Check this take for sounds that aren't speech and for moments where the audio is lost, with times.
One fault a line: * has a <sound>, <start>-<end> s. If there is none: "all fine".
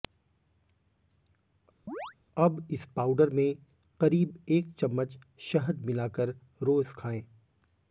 * has a chirp, 1.9-2.1 s